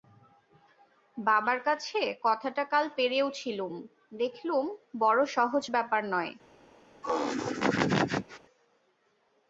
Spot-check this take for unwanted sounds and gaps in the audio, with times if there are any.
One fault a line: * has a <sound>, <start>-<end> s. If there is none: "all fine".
* has a laugh, 7.0-8.4 s